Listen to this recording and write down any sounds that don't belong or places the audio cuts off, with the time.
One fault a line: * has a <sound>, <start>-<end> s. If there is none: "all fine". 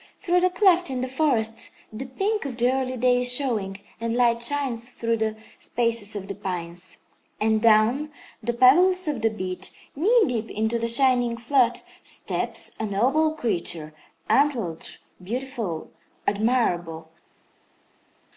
all fine